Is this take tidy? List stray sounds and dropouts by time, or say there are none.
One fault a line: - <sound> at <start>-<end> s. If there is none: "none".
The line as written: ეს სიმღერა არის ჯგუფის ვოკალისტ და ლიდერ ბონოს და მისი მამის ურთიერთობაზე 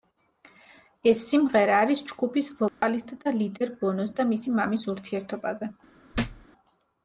- dropout at 2.7-2.8 s
- thud at 6.1-6.5 s